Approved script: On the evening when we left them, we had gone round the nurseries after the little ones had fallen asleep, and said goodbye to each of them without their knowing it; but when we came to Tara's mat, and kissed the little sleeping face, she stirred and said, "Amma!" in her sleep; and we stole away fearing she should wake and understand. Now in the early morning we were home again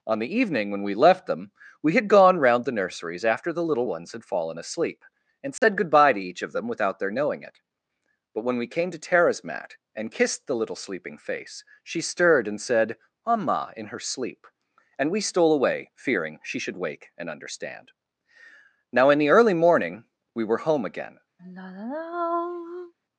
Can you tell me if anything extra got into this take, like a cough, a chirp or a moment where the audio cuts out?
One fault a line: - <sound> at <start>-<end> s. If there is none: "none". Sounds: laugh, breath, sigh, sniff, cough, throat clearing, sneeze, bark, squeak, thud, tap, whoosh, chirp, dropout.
- dropout at 5.6-5.6 s
- sigh at 21.4-22.9 s